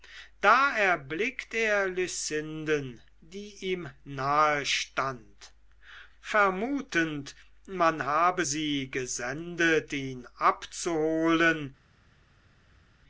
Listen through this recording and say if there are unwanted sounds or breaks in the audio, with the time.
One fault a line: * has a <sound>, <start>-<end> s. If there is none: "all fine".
all fine